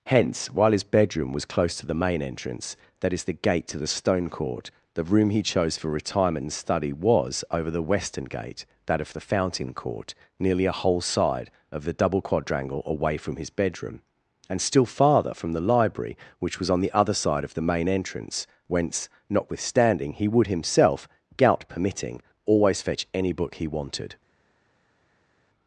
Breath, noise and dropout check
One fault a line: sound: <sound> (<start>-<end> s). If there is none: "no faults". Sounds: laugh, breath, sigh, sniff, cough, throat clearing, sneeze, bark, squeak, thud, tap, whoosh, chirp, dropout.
no faults